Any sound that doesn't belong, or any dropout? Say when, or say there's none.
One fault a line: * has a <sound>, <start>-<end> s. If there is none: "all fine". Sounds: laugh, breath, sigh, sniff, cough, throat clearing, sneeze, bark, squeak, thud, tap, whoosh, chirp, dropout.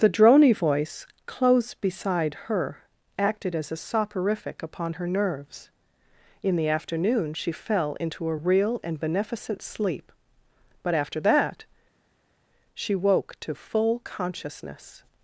all fine